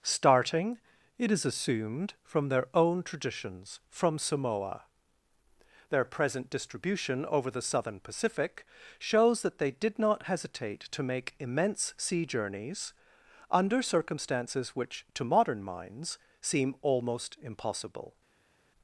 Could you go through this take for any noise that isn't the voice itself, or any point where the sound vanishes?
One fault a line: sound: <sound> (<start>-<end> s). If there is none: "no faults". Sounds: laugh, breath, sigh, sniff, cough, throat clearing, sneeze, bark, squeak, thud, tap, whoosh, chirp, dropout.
no faults